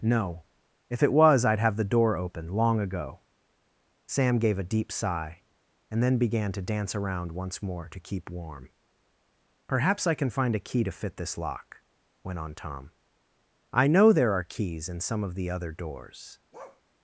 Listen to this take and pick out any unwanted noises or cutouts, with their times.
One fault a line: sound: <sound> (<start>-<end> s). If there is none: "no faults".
sound: bark (16.5-16.8 s)